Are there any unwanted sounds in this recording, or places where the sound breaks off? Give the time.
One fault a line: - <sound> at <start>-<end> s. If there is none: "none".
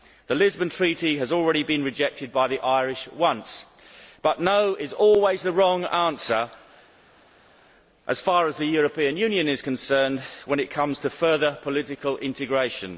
none